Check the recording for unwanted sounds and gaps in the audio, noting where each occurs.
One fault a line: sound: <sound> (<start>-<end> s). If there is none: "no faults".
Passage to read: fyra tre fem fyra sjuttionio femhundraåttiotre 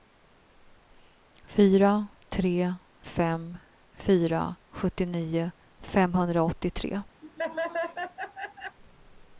sound: laugh (7.2-8.8 s)